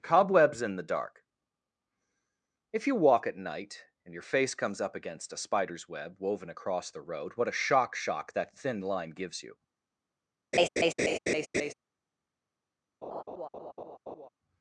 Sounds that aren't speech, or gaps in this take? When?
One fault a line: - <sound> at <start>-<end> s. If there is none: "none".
- laugh at 10.5-11.7 s
- laugh at 13.0-14.3 s